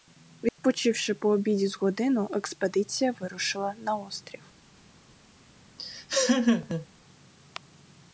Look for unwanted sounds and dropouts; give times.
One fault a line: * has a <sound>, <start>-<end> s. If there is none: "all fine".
* has a dropout, 0.5-0.6 s
* has a laugh, 5.8-6.9 s